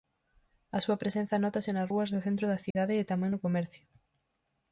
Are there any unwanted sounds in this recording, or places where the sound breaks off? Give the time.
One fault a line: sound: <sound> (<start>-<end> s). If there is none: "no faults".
sound: dropout (2.7-2.8 s)